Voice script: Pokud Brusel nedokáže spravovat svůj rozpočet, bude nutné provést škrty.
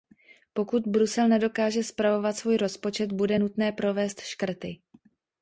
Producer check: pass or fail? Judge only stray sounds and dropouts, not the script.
pass